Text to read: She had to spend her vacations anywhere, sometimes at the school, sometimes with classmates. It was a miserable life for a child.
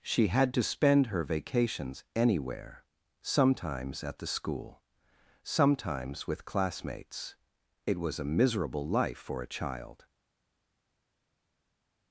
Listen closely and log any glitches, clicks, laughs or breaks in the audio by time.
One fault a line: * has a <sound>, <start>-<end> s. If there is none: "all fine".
all fine